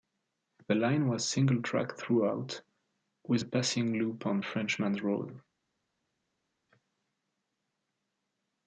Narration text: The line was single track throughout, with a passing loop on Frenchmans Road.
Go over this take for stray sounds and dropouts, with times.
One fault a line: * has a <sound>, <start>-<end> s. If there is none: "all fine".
all fine